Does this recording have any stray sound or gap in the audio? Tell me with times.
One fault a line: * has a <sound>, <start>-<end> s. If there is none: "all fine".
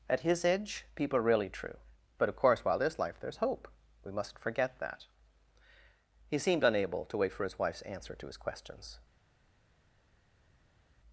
all fine